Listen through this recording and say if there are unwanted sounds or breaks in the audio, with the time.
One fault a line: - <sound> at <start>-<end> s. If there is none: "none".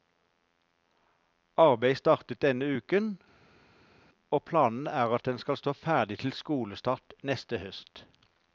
none